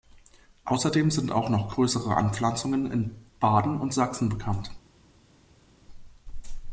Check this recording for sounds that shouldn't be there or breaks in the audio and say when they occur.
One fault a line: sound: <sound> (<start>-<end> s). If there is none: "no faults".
no faults